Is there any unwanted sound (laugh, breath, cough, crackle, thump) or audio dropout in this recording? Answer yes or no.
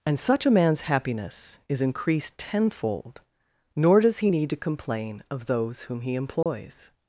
yes